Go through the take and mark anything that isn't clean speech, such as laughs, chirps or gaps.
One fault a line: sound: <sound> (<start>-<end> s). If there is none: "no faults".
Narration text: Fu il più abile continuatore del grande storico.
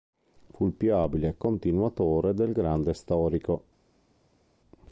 no faults